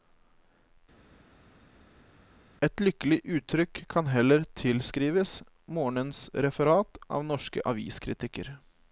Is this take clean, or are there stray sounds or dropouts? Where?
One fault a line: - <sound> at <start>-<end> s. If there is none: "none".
none